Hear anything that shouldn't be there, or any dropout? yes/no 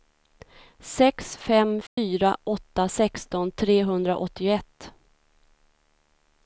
yes